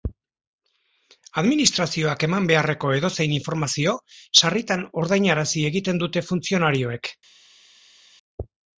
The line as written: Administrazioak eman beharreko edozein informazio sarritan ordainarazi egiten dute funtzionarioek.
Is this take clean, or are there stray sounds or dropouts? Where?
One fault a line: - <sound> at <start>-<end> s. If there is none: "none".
none